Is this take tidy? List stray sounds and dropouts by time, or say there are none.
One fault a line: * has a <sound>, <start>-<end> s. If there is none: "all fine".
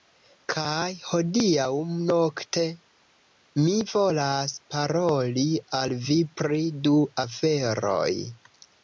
all fine